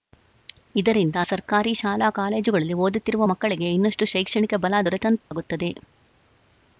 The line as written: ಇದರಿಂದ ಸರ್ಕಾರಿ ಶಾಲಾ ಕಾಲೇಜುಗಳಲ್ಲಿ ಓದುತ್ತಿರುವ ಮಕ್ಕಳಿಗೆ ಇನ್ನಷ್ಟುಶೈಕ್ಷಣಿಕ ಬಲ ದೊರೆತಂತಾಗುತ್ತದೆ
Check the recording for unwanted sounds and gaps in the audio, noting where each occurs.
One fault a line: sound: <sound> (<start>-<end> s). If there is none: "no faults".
sound: dropout (5.2-5.3 s)